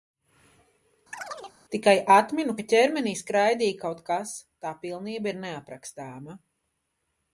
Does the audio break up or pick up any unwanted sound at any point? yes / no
yes